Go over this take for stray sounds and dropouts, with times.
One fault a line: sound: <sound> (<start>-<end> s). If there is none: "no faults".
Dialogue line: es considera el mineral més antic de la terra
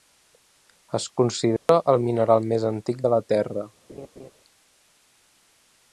sound: dropout (1.6-1.7 s)
sound: laugh (3.9-4.3 s)